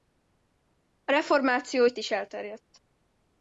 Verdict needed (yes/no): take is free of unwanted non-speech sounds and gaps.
yes